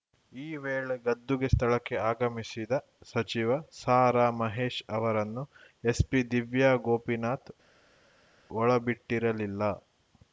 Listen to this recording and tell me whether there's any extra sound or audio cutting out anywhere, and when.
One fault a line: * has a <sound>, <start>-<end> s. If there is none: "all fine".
all fine